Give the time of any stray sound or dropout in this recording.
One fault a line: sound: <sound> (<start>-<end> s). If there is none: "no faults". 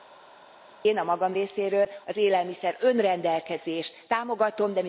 no faults